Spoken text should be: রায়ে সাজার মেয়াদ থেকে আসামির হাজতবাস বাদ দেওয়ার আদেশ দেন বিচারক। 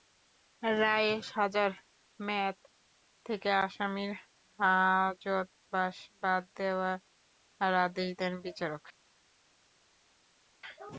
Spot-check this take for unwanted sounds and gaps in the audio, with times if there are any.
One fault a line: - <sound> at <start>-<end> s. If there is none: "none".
none